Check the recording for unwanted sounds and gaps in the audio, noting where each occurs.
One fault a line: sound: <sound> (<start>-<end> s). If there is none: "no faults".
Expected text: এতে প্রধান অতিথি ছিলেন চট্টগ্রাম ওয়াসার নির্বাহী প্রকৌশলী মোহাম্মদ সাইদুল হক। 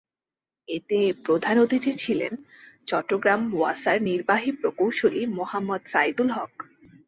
no faults